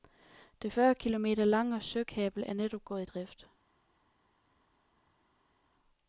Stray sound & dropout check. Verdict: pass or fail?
pass